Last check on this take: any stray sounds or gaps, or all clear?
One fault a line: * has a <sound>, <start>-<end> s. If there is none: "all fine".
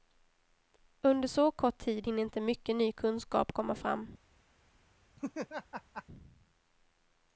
* has a laugh, 5.2-6.0 s